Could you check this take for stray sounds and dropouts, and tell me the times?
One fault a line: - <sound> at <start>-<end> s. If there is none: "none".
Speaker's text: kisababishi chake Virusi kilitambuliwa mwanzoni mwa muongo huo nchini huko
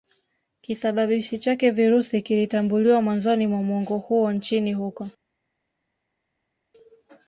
none